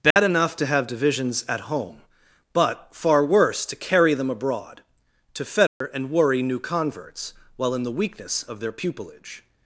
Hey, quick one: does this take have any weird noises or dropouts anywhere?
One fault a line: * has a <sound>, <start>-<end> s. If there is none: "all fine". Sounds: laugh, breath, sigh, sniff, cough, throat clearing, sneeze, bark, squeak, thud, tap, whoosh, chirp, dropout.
* has a dropout, 0.1-0.2 s
* has a dropout, 5.7-5.8 s